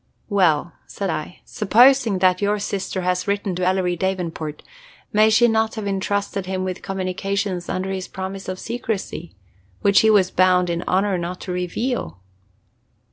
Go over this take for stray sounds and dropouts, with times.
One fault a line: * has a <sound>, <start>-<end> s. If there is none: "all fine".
all fine